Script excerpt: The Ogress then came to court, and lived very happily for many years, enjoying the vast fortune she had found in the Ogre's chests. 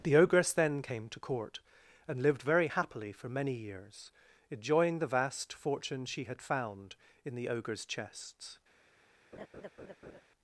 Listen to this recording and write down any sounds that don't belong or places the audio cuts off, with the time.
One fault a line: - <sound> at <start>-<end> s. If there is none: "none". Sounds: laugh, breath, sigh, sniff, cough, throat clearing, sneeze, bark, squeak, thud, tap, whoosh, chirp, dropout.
- laugh at 9.3-10.2 s